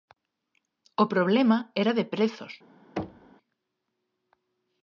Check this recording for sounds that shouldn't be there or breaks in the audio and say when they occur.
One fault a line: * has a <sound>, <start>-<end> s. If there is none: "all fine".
* has a thud, 3.0-3.3 s